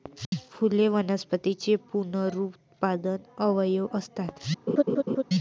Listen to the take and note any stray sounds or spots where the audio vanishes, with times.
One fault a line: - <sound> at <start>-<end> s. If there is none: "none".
- laugh at 4.7-5.2 s